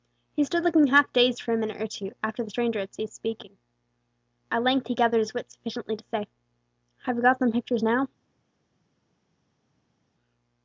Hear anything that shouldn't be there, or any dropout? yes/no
no